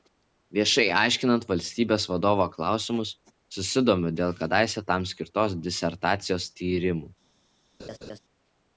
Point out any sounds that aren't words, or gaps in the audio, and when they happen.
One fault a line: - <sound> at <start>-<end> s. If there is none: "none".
- laugh at 7.8-8.2 s